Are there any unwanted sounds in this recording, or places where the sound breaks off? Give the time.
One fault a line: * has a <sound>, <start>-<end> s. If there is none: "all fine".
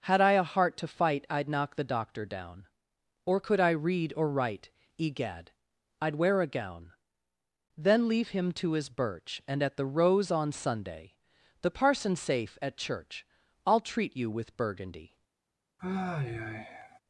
* has a sigh, 15.8-17.0 s